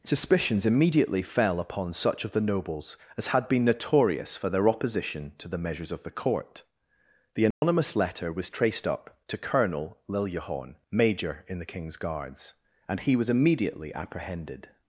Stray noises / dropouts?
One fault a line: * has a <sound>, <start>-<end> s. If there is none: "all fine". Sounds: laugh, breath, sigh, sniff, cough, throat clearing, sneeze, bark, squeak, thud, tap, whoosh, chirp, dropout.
* has a dropout, 7.5-7.6 s